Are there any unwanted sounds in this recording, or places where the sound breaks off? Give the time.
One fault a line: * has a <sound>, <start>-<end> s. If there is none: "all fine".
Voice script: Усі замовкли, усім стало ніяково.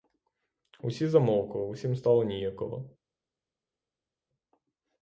all fine